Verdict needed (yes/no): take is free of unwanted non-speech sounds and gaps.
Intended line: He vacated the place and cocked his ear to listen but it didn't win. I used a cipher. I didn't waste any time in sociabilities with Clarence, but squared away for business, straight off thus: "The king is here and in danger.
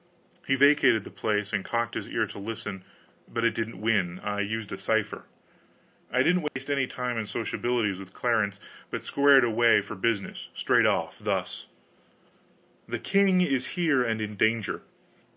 no